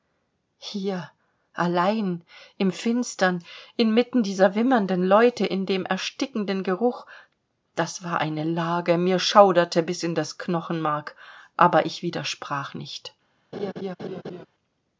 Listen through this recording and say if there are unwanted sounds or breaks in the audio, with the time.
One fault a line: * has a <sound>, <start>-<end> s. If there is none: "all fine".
* has a laugh, 13.5-14.5 s